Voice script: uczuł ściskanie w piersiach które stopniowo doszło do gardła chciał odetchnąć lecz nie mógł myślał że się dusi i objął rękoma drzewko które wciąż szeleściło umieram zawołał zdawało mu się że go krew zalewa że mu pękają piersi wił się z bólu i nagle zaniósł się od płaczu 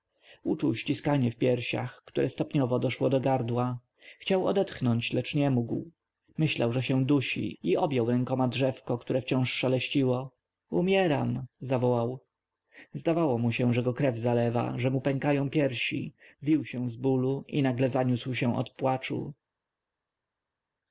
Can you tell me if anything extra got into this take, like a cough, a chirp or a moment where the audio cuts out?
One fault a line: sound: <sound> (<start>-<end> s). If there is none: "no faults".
no faults